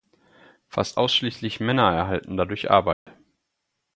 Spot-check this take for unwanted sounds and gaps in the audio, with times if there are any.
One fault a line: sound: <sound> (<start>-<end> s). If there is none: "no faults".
sound: dropout (2.9-3.1 s)